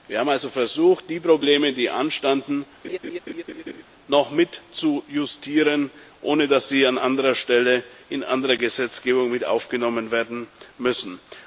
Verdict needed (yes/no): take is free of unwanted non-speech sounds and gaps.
no